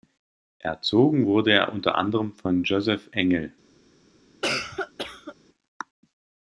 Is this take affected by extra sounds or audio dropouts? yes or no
yes